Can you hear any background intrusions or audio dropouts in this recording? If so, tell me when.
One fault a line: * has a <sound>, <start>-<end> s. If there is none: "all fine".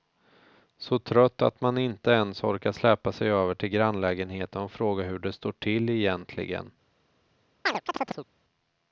* has a chirp, 7.7-8.3 s